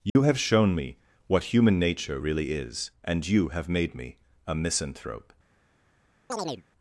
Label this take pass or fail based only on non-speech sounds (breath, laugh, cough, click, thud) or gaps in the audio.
fail